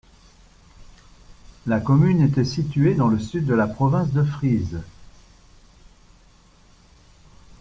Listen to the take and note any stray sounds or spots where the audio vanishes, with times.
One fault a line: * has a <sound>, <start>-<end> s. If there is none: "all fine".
all fine